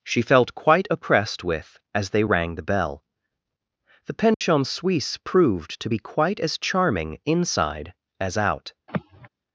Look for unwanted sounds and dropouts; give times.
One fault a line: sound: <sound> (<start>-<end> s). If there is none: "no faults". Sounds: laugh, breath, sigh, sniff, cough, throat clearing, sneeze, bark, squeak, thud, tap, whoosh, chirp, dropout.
sound: dropout (4.3-4.4 s)
sound: sigh (8.9-9.3 s)